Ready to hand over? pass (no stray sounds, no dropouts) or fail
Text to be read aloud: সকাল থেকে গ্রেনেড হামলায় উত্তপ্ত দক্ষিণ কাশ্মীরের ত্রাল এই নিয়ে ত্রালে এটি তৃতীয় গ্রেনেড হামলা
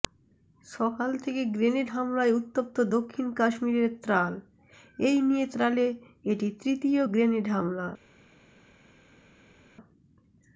pass